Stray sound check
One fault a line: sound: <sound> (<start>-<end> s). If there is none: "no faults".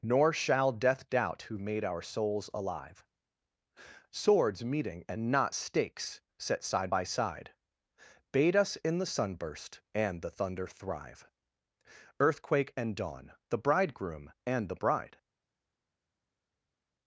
no faults